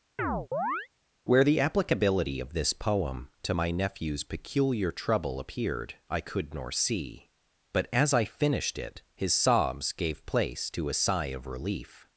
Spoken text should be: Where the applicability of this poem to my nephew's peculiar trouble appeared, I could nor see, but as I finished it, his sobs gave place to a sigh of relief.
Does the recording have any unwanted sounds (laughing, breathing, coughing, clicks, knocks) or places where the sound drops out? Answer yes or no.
yes